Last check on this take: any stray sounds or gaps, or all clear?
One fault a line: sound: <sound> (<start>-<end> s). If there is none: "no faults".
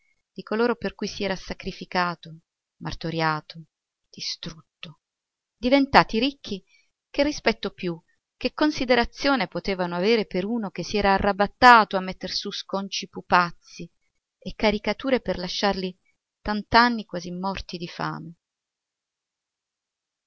no faults